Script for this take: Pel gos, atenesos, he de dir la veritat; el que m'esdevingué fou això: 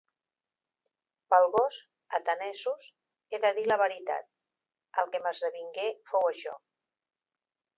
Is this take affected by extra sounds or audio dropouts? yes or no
no